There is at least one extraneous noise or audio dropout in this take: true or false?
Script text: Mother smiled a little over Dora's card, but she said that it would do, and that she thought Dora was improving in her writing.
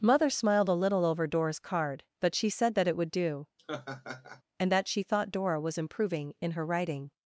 true